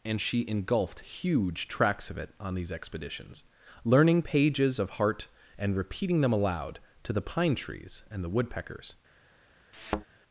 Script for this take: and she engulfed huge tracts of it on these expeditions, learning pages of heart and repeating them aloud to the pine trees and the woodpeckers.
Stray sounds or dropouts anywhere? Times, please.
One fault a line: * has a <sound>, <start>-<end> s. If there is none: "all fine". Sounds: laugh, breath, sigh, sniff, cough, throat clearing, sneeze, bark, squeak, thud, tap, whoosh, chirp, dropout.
* has a thud, 9.7-10.1 s